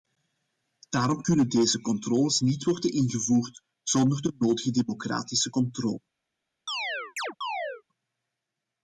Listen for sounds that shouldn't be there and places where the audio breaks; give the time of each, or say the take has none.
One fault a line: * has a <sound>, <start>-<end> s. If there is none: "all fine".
* has a chirp, 6.7-7.8 s